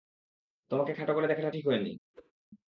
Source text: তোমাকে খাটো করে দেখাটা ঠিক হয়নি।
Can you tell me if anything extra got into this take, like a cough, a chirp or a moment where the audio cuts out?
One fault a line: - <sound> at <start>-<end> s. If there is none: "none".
- whoosh at 2.1-2.3 s